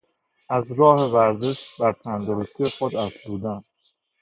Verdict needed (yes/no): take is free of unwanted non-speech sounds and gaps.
yes